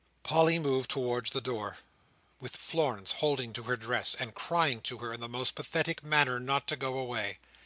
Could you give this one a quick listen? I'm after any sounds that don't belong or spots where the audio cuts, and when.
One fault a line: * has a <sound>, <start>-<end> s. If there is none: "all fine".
all fine